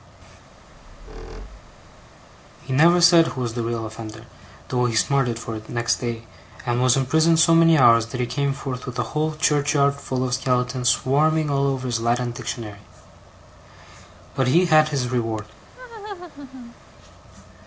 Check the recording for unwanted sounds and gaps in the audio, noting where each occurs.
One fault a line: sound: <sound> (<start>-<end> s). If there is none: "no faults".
sound: squeak (0.6-2.1 s)
sound: laugh (15.7-16.8 s)